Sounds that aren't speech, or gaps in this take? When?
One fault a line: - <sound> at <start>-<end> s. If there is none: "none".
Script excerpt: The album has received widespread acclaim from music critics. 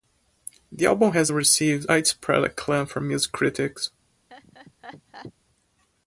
- laugh at 4.3-5.3 s